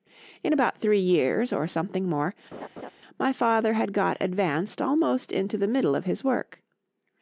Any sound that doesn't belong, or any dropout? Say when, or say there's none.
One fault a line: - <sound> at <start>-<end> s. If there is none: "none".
- laugh at 2.5-2.9 s